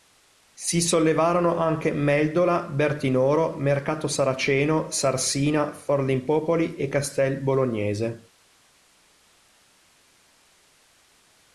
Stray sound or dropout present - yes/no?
no